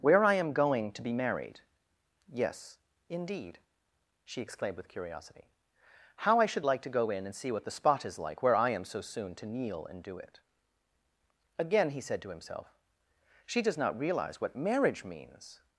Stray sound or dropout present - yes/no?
no